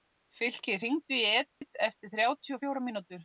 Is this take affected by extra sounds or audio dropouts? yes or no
yes